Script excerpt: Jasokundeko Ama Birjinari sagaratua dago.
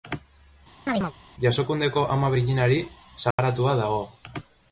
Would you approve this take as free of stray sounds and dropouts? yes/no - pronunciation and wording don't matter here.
no